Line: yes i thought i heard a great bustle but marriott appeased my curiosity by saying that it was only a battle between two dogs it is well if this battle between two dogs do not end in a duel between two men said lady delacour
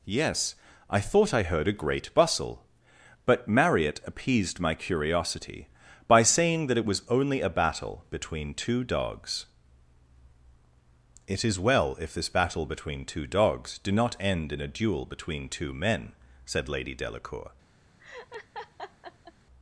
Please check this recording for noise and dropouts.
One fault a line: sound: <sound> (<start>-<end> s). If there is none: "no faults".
sound: laugh (18.0-19.3 s)